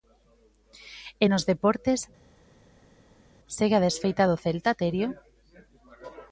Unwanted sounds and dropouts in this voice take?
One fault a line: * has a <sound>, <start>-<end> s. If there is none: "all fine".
all fine